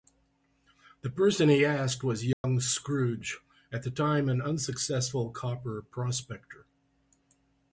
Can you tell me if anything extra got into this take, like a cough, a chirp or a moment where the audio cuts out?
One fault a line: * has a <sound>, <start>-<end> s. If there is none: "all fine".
* has a dropout, 2.3-2.4 s